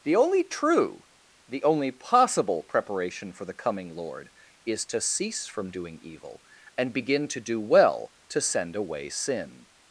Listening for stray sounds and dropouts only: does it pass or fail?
pass